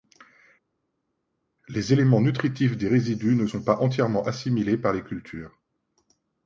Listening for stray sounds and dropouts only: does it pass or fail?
pass